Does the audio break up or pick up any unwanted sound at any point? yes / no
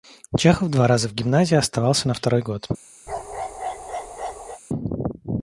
yes